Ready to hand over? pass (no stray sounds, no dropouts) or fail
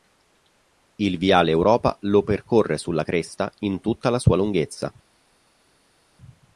pass